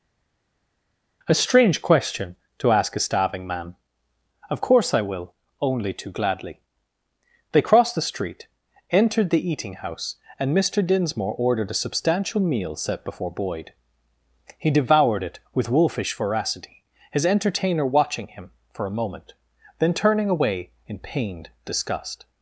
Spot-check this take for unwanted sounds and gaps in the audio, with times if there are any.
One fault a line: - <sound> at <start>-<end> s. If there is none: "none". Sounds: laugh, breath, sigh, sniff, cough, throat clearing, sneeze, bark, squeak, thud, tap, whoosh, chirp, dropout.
none